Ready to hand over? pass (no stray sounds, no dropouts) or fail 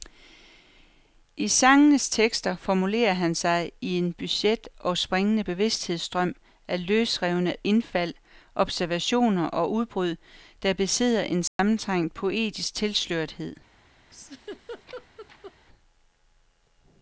fail